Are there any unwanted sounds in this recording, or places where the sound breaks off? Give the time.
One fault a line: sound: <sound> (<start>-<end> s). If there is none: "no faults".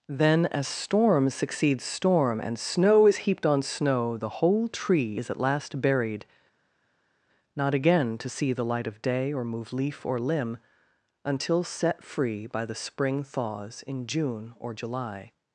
no faults